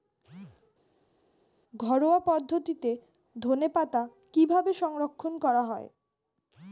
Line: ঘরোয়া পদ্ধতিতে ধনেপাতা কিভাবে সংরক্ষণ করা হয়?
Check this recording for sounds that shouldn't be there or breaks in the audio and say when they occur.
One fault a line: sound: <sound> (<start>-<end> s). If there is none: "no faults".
no faults